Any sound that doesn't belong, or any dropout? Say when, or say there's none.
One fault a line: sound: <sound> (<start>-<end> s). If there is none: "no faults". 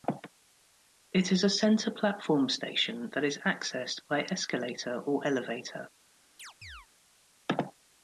sound: chirp (6.4-6.9 s)